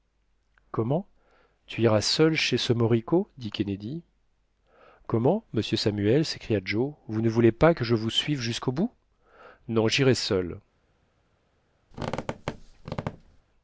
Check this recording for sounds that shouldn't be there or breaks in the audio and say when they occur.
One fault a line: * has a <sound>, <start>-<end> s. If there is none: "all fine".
* has a squeak, 11.9-13.4 s